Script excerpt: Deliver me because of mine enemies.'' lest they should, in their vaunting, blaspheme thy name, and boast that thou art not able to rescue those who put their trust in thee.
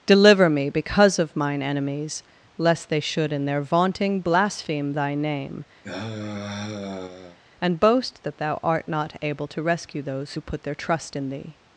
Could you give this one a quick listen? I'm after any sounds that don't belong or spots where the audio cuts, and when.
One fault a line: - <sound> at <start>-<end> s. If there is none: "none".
- sigh at 5.8-7.4 s